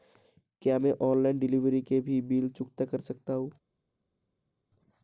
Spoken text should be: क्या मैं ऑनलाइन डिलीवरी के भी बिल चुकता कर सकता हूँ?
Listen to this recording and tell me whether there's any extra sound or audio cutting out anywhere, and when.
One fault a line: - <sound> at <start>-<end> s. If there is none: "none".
none